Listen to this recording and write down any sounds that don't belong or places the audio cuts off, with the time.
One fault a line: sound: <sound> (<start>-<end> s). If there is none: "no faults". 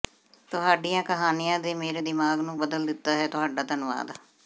no faults